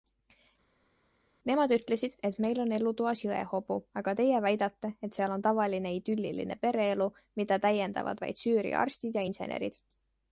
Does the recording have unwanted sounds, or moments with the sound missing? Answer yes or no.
no